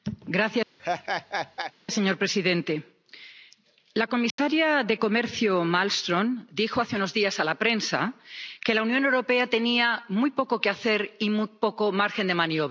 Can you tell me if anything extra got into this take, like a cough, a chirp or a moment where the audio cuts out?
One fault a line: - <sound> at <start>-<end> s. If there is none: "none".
- laugh at 0.8-1.7 s
- dropout at 4.3-4.4 s